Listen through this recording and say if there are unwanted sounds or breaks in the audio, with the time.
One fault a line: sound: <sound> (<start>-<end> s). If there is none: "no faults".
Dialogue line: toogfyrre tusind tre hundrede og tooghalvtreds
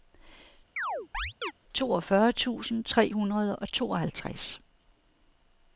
sound: chirp (0.8-1.5 s)